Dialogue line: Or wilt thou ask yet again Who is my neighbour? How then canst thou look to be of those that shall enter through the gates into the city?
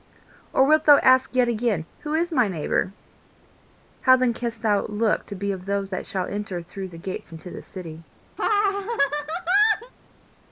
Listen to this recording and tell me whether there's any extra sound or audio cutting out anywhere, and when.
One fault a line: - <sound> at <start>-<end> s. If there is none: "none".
- laugh at 8.4-9.9 s